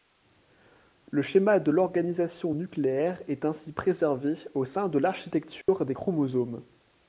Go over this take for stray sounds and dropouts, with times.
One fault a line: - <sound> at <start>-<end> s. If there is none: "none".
- dropout at 5.6-5.7 s